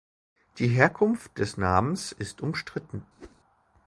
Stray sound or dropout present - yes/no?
yes